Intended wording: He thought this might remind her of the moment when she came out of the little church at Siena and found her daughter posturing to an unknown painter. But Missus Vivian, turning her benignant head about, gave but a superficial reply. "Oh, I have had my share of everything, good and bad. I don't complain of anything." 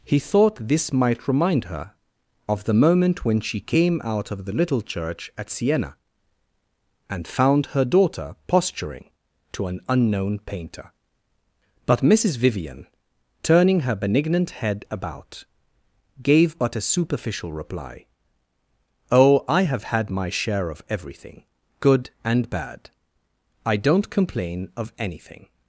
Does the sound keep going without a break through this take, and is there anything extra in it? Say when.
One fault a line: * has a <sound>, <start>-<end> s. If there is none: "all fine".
all fine